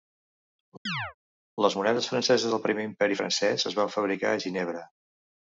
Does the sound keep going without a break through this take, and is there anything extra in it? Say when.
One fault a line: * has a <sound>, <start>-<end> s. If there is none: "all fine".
* has a chirp, 0.9-1.1 s